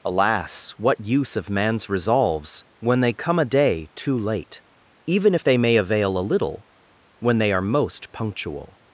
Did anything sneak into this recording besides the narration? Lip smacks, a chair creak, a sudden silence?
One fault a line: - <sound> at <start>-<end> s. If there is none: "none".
none